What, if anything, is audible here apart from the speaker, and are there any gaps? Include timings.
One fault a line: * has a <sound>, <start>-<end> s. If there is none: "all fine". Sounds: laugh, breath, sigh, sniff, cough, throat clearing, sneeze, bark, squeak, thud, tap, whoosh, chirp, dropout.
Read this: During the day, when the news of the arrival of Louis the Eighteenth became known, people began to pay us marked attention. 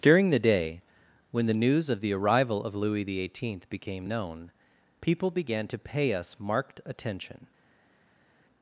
all fine